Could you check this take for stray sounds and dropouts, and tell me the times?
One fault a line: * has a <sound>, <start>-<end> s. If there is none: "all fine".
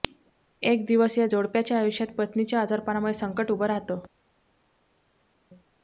all fine